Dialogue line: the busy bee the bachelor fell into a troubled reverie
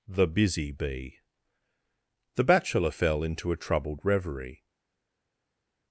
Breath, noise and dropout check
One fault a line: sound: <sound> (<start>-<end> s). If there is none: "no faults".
no faults